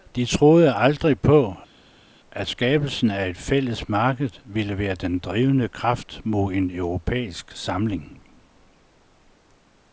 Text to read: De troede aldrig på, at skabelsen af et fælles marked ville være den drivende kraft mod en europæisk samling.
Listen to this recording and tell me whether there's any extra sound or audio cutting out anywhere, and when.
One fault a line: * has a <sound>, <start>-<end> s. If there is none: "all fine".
all fine